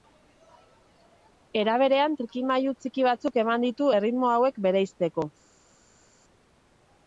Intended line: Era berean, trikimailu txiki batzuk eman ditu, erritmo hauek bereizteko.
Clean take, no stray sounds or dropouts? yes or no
yes